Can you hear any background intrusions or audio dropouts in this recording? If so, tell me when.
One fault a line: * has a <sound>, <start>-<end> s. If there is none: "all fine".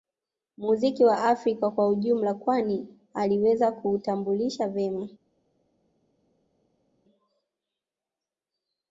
all fine